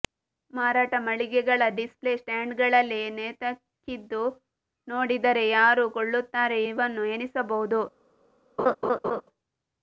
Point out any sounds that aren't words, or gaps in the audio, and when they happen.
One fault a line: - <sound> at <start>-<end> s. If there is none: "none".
- laugh at 8.6-9.2 s